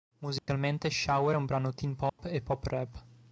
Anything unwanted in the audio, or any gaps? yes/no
yes